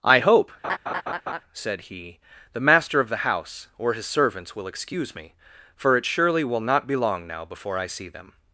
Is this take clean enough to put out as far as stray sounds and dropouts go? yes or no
no